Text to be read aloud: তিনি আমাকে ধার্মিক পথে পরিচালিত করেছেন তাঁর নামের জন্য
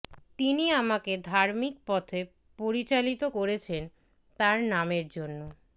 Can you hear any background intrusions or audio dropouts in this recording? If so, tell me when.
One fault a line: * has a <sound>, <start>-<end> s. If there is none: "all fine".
all fine